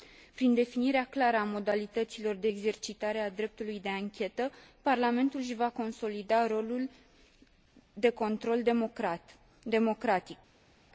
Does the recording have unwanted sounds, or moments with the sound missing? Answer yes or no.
no